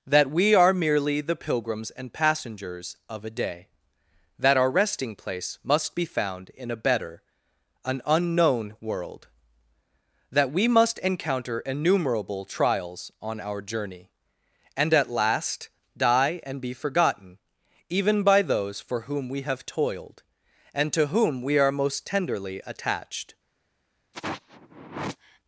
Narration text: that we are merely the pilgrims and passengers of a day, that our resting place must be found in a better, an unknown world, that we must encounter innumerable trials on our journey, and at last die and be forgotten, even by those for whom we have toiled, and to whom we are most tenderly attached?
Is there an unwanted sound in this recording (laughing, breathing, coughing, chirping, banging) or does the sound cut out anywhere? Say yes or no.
yes